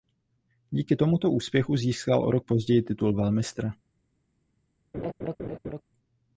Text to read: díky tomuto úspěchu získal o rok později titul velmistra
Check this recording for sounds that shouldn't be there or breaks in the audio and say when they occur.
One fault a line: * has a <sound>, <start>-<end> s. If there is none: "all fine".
* has a laugh, 4.9-5.8 s